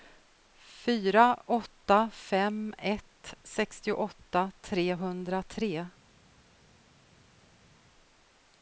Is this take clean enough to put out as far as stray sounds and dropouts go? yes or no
yes